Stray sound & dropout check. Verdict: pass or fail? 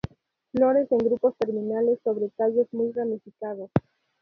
pass